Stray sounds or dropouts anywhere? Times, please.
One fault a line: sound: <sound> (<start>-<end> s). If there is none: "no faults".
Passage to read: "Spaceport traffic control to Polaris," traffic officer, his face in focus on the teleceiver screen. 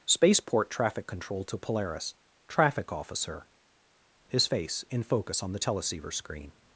no faults